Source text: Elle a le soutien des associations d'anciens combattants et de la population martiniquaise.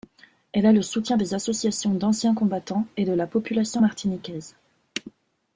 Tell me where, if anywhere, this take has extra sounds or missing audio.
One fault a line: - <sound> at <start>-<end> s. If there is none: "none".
none